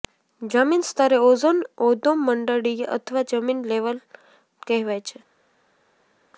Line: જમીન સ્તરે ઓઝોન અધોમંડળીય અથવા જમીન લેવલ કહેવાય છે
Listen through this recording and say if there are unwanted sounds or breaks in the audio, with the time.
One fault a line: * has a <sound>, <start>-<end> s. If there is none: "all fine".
all fine